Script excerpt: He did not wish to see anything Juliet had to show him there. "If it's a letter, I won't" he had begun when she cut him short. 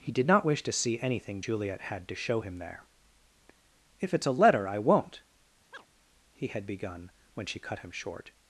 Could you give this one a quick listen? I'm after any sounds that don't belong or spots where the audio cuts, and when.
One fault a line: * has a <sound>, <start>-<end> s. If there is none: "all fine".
* has a chirp, 5.7-5.9 s